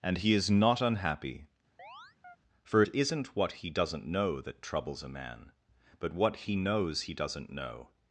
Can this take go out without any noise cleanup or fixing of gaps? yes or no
no